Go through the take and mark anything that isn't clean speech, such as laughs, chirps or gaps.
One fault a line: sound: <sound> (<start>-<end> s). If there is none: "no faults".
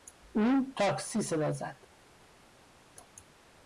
no faults